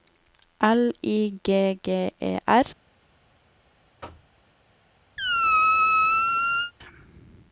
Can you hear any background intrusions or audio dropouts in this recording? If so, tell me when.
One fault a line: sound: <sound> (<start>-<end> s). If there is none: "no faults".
sound: thud (4.0-4.3 s)
sound: squeak (5.2-6.7 s)